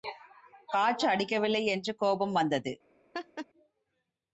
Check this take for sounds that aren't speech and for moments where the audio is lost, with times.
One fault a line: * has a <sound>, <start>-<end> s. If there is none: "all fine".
* has a laugh, 3.1-3.5 s